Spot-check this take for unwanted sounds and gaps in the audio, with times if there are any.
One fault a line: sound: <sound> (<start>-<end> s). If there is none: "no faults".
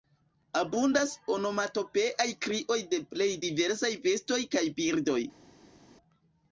no faults